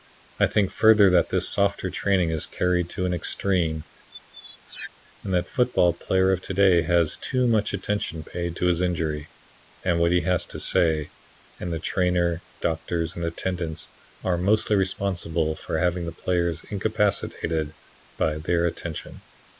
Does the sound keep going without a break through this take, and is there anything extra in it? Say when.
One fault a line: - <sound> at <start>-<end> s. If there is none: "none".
- squeak at 4.1-4.9 s